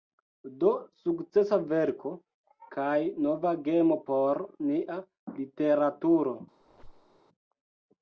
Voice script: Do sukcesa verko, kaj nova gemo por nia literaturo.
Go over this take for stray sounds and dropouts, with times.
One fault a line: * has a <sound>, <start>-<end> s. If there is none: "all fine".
* has a squeak, 6.6-7.2 s